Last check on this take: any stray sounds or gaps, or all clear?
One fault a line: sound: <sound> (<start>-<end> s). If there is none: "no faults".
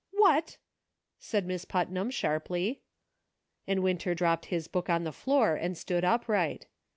no faults